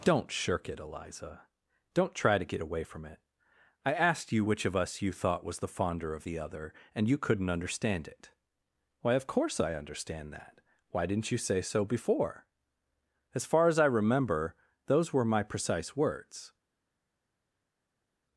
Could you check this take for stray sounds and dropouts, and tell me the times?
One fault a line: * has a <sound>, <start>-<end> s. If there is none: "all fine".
all fine